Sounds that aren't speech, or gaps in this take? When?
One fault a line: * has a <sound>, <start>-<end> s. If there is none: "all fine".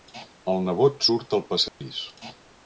* has a dropout, 1.7-1.8 s